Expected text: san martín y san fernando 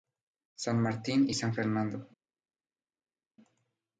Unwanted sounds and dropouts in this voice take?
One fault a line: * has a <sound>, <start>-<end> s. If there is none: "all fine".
all fine